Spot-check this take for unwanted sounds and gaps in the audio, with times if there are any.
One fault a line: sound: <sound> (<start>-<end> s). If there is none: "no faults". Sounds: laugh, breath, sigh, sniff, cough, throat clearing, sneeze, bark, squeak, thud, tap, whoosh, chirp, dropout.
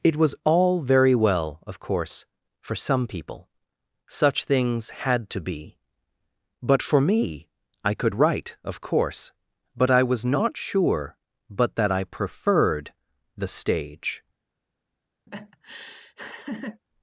sound: laugh (15.3-16.8 s)